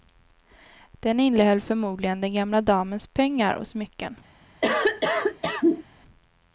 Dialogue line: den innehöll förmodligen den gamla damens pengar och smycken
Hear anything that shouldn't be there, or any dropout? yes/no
yes